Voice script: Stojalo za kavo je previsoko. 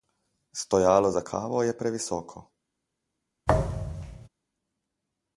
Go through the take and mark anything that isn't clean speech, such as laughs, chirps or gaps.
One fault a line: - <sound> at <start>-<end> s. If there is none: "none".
- thud at 3.5-4.3 s